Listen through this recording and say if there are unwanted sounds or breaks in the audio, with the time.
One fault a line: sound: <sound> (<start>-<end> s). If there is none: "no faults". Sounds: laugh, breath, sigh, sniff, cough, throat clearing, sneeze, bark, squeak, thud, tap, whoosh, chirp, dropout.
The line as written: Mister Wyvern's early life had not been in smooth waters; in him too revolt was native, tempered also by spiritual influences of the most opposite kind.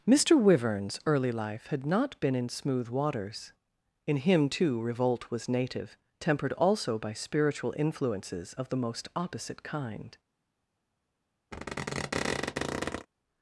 sound: squeak (11.5-13.1 s)